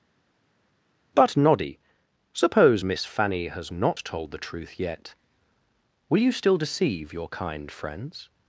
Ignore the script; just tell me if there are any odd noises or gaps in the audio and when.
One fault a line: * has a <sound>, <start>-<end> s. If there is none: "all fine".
all fine